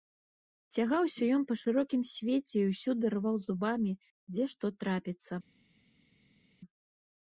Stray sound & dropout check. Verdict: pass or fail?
pass